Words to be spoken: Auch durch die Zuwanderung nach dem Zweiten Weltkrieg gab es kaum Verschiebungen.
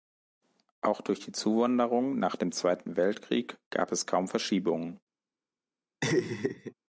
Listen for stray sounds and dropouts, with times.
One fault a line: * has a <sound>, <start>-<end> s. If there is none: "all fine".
* has a laugh, 6.0-6.7 s